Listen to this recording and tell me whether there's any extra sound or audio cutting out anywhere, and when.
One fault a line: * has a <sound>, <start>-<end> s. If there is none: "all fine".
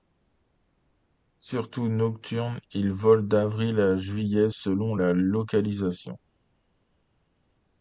all fine